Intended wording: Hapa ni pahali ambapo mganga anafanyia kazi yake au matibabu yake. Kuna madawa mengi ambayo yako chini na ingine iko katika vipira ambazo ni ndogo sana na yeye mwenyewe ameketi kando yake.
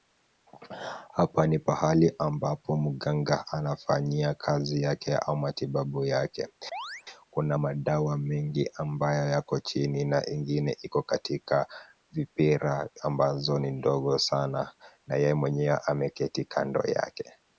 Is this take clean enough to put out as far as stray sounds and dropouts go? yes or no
no